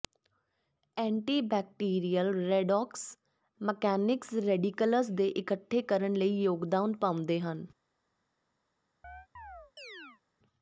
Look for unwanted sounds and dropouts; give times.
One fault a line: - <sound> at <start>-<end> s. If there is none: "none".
- chirp at 9.0-10.2 s